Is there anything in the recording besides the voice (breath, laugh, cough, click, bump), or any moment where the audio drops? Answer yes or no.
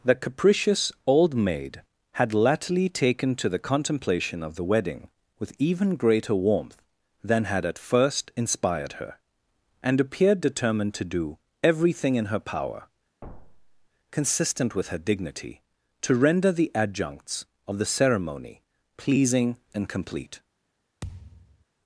yes